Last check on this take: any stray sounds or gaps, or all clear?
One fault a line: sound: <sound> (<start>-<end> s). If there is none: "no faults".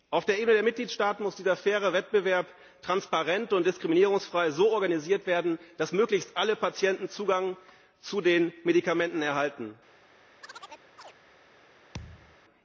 sound: chirp (10.4-11.1 s)
sound: thud (11.9-12.4 s)